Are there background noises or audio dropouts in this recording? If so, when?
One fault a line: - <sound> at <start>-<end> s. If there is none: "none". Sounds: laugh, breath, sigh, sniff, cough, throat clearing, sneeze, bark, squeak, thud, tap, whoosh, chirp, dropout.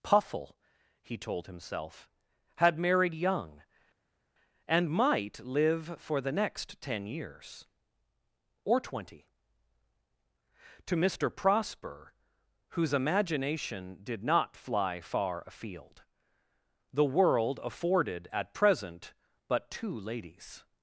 none